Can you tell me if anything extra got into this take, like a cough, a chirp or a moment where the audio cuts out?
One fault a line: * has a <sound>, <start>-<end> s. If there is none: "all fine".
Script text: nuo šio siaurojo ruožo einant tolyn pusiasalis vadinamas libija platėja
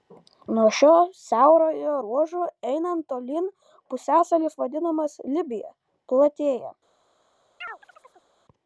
* has a chirp, 7.6-8.3 s